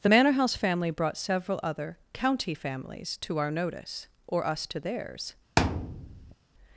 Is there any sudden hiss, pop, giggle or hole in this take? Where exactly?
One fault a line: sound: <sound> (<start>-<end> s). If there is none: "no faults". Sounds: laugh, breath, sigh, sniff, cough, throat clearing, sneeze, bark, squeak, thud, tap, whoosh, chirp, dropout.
sound: thud (5.6-6.4 s)